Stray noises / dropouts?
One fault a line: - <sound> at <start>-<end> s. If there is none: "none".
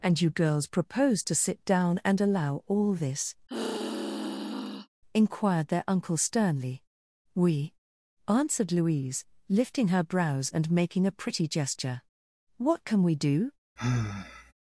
- sigh at 3.5-4.9 s
- sigh at 13.8-14.5 s